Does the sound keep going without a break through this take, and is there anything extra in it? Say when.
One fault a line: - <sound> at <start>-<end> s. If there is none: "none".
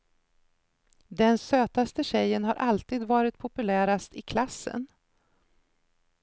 none